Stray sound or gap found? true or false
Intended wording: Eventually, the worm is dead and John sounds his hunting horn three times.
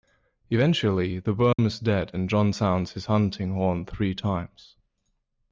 true